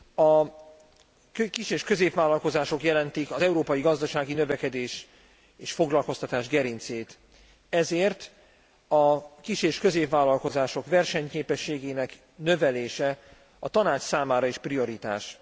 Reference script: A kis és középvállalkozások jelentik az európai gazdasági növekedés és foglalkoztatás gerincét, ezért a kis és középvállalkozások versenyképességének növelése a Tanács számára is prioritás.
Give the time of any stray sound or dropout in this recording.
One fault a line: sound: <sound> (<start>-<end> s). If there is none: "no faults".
no faults